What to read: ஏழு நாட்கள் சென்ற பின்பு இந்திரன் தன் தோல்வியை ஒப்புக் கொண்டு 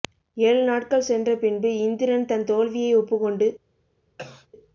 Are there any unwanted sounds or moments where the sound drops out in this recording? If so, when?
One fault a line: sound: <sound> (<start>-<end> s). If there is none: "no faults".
sound: cough (4.2-4.5 s)